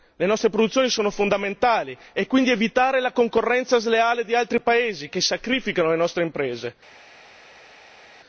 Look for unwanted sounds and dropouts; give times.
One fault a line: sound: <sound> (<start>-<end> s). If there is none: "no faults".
no faults